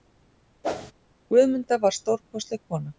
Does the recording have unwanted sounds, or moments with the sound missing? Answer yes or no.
yes